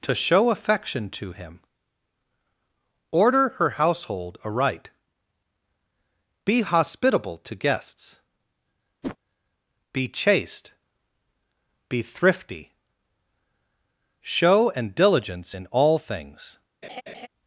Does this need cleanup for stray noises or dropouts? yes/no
yes